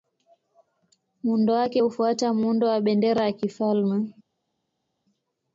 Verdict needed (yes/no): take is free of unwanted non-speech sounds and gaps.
yes